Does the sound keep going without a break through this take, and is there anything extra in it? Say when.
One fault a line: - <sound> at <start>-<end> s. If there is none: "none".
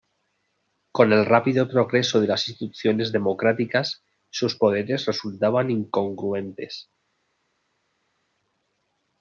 none